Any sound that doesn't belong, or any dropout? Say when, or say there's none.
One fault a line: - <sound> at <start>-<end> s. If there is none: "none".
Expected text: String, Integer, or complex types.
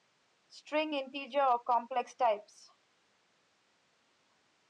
none